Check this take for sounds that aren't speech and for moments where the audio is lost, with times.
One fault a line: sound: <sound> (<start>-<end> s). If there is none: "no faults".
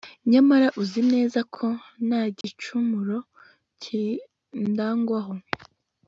sound: dropout (2.4-2.4 s)